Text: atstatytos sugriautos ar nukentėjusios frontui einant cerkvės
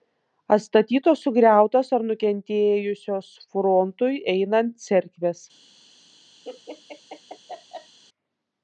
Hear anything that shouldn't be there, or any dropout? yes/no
yes